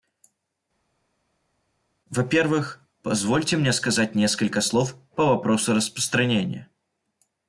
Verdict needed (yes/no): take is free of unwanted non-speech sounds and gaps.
yes